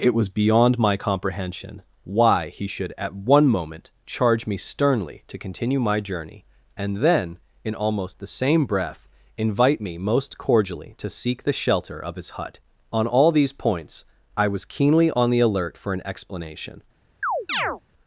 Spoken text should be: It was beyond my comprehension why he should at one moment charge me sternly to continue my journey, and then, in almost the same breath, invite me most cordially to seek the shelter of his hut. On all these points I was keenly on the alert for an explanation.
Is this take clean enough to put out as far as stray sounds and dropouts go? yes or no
no